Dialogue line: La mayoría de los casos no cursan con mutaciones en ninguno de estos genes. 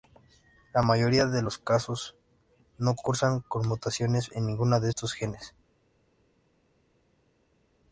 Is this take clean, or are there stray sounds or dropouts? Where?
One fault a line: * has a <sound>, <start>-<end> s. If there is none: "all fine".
all fine